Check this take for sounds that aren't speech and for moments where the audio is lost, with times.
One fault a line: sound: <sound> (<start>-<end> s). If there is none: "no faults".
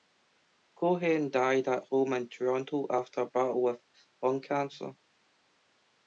no faults